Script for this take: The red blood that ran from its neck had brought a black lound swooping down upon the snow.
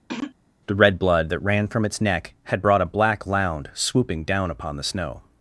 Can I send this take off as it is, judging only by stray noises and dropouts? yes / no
no